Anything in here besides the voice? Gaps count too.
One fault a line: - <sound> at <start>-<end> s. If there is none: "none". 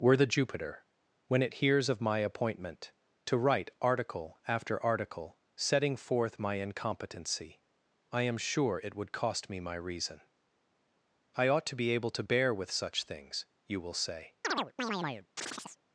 - chirp at 14.4-15.8 s